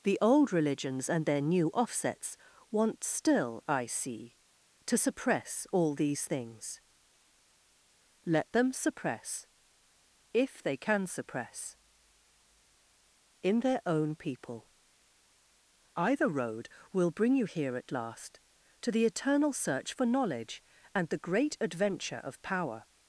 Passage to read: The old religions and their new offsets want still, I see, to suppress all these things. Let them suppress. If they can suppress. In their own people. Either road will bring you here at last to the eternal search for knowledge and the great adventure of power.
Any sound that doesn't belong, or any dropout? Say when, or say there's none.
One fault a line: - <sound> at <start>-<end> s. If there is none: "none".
none